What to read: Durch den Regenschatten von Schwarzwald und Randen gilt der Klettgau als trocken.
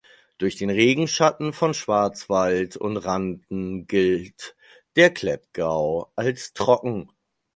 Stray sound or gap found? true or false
false